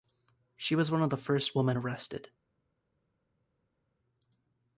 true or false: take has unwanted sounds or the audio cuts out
false